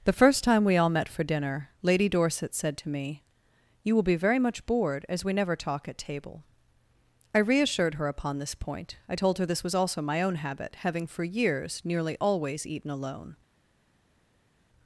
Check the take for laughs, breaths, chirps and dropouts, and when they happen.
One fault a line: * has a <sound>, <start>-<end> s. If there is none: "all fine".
all fine